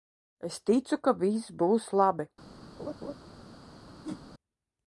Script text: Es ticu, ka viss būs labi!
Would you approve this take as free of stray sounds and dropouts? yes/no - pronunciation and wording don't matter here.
no